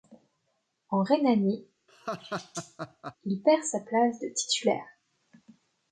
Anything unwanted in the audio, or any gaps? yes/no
yes